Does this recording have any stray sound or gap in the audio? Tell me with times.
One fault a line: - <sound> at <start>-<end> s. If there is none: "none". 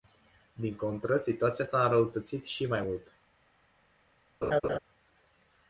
- laugh at 4.4-4.8 s